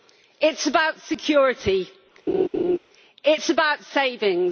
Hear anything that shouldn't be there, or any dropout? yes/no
yes